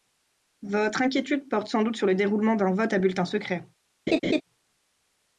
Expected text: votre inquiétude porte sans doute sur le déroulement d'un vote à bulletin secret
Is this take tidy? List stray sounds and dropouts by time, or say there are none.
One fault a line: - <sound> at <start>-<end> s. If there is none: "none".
- laugh at 4.1-4.4 s